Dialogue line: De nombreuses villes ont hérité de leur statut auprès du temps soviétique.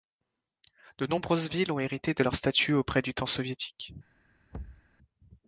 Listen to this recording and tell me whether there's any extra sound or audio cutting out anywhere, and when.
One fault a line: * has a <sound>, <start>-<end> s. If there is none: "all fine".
* has a thud, 4.5-4.9 s